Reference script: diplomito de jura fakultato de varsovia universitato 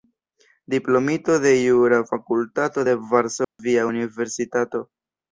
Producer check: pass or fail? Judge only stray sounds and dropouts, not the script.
fail